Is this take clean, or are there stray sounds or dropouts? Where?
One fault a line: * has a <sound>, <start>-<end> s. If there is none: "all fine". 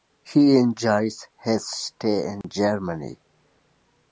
* has a dropout, 2.4-2.4 s